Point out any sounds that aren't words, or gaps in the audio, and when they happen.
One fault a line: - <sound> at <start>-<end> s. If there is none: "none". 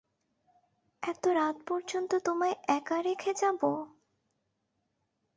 none